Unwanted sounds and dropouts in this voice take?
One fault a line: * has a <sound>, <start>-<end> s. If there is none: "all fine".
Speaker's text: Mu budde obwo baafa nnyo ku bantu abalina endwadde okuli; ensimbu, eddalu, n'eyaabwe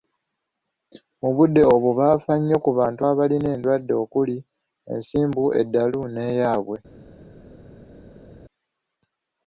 all fine